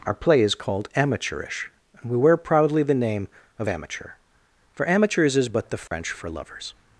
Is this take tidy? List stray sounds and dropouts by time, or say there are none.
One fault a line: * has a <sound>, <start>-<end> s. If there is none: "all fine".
* has a dropout, 5.9-5.9 s